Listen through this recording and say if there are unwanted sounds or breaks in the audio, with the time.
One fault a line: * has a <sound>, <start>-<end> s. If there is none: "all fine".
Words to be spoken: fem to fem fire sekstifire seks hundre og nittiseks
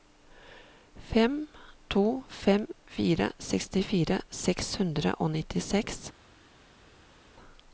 all fine